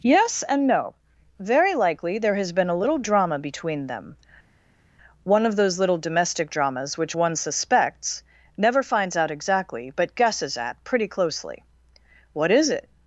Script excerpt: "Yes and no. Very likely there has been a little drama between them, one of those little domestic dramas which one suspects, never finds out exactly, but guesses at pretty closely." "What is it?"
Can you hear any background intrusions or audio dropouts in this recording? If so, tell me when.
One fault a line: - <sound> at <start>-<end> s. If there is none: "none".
none